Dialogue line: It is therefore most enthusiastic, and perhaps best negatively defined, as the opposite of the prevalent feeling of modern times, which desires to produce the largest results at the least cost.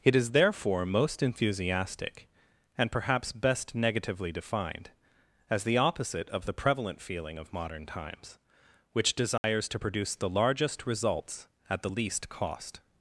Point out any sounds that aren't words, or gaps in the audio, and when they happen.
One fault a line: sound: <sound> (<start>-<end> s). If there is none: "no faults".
sound: dropout (9.4-9.4 s)